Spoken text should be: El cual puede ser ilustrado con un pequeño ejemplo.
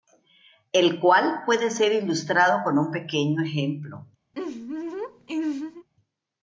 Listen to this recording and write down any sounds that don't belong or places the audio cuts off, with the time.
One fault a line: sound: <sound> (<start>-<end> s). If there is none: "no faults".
sound: laugh (4.3-5.9 s)